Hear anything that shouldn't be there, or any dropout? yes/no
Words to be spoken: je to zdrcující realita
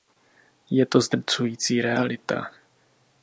no